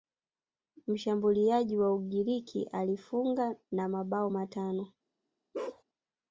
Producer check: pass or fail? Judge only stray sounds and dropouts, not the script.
fail